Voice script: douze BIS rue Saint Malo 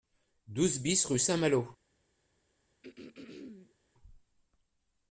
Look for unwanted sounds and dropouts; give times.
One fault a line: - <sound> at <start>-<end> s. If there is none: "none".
- throat clearing at 2.8-3.8 s